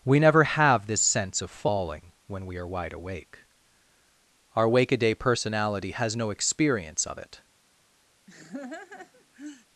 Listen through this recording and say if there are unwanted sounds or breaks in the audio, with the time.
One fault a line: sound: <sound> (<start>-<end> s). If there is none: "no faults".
sound: laugh (8.3-9.6 s)